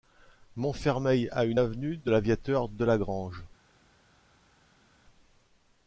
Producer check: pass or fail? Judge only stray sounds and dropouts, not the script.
pass